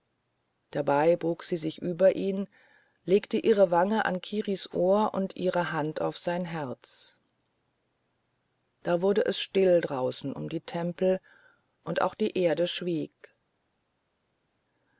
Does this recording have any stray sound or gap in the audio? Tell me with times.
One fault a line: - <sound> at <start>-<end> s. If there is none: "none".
none